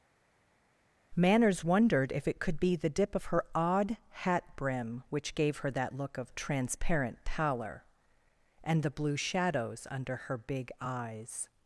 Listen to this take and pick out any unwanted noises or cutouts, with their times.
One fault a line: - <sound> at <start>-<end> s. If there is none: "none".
none